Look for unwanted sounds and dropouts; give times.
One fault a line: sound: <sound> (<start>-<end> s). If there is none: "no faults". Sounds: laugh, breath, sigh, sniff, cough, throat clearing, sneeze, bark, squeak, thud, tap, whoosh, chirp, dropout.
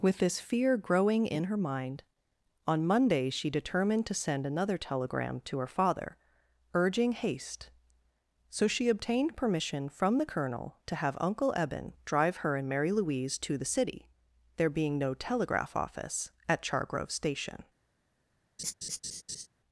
sound: laugh (18.6-19.5 s)